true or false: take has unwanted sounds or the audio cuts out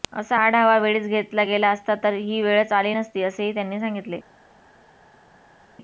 false